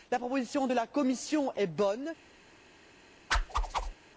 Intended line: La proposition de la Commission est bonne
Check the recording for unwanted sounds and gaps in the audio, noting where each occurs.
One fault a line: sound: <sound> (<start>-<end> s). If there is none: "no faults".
sound: whoosh (3.3-3.9 s)